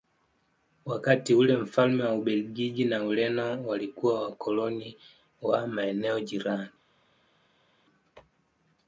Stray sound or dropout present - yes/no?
no